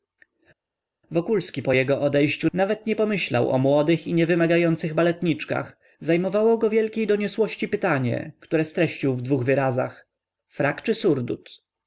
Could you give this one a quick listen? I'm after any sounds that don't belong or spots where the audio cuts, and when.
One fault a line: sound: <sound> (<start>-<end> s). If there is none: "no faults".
no faults